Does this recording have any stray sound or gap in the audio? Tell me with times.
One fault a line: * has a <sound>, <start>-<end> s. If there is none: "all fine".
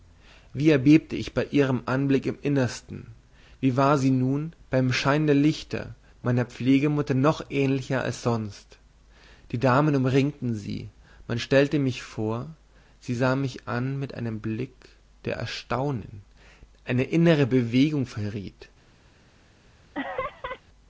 * has a laugh, 19.9-20.6 s